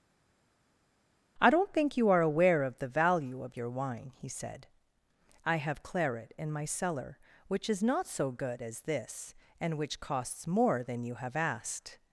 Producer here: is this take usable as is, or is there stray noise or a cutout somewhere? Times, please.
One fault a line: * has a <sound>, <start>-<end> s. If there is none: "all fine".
all fine